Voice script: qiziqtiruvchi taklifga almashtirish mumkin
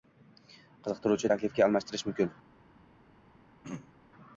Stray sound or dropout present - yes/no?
yes